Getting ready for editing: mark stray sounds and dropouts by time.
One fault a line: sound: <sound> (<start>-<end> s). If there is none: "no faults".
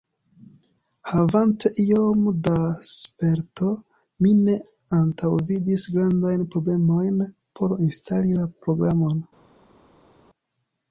no faults